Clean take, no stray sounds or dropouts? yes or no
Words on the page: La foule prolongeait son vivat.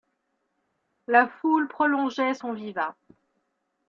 yes